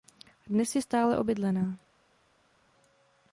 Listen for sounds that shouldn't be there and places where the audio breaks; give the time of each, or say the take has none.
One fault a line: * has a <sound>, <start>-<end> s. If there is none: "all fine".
all fine